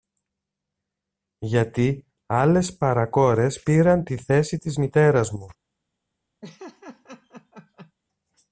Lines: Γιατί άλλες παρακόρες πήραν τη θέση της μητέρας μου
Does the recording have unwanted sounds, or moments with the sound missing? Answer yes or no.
yes